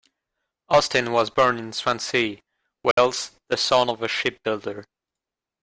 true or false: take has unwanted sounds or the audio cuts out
true